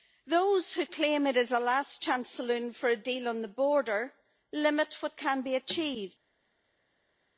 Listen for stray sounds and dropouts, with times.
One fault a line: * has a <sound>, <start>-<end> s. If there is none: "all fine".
all fine